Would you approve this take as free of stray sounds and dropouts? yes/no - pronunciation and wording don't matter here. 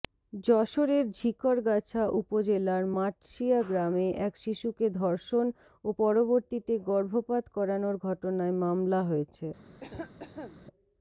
no